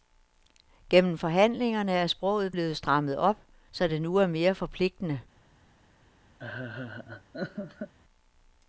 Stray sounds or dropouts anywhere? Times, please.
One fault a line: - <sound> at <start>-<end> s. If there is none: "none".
- laugh at 6.4-7.9 s